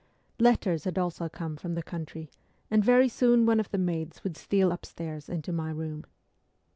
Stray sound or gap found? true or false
false